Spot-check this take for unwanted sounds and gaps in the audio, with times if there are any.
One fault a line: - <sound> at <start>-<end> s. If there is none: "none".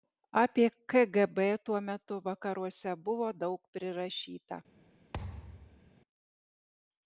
- thud at 5.1-5.9 s